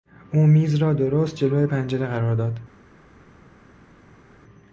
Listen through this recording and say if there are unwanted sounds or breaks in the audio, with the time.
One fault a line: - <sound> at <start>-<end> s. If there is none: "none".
none